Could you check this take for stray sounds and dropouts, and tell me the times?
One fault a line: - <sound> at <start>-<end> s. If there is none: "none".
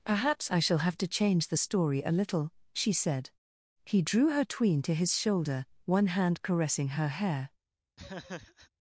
- laugh at 8.0-8.7 s